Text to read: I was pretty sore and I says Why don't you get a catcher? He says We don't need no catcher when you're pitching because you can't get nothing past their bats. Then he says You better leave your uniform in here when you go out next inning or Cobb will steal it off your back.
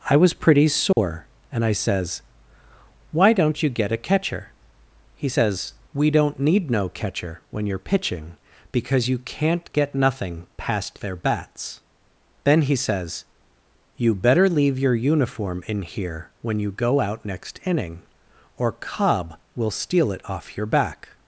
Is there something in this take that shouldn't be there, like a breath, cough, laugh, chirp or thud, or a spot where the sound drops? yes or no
yes